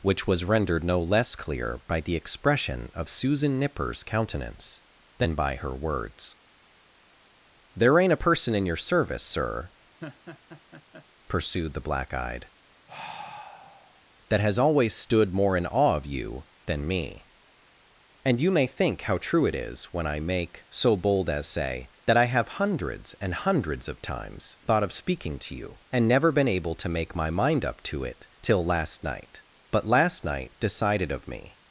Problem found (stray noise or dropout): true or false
true